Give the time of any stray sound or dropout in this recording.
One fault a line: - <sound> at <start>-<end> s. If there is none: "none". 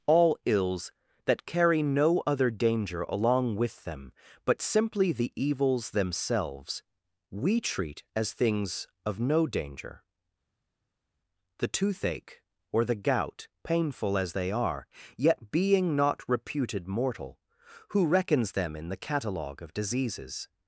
none